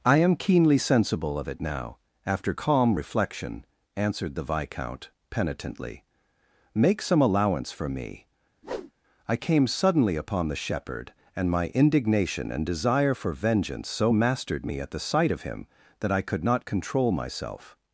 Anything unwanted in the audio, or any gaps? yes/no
yes